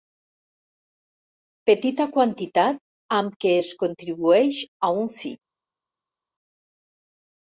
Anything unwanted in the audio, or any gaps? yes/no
no